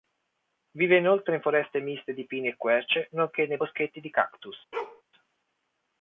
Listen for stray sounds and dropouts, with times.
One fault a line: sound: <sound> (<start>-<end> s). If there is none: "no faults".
sound: bark (4.7-5.0 s)